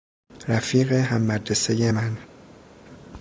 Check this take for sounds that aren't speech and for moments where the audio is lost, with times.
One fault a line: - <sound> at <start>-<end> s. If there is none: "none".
none